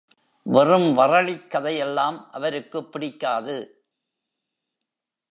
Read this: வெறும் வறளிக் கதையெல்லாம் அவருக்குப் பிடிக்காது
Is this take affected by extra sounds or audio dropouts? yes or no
no